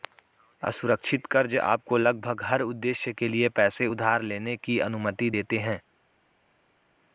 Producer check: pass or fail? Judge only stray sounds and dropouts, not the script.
pass